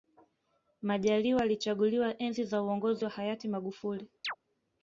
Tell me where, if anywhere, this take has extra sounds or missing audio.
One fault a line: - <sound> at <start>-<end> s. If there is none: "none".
- chirp at 4.2-4.4 s